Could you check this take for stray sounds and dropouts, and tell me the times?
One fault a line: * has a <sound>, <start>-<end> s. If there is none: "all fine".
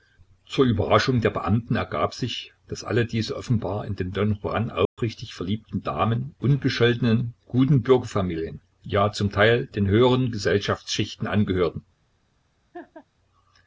* has a dropout, 4.8-5.0 s
* has a laugh, 12.7-13.1 s